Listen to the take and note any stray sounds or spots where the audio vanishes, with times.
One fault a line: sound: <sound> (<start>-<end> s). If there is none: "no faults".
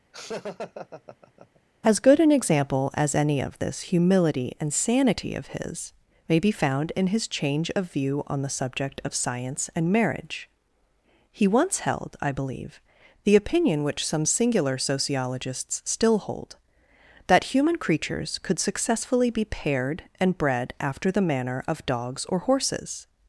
sound: laugh (0.1-1.6 s)